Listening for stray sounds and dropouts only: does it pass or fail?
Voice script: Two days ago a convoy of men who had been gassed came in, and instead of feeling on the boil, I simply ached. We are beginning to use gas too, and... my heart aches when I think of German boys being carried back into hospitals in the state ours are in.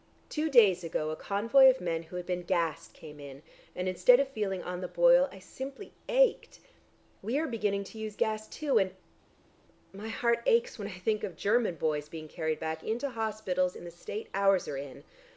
pass